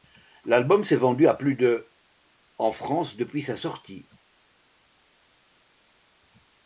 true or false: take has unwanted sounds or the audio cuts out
false